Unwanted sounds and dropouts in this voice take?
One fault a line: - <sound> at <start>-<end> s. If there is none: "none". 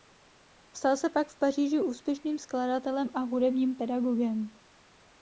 none